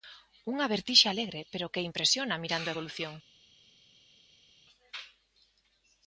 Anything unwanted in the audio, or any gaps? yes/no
no